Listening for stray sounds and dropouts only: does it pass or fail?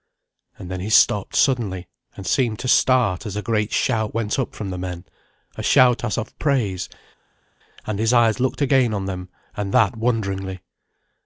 pass